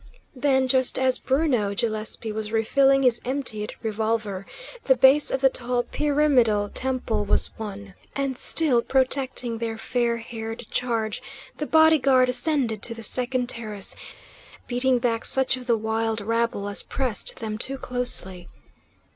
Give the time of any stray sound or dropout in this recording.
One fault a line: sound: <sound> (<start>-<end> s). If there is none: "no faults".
no faults